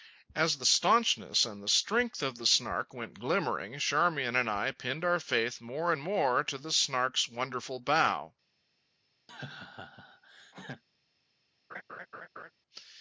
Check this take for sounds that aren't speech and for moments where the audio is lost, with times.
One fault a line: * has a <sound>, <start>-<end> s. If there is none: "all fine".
* has a laugh, 9.3-10.8 s
* has a laugh, 11.7-12.5 s